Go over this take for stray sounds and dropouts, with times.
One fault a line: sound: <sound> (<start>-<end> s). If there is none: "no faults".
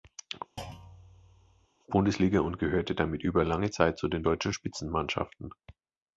sound: thud (0.6-1.7 s)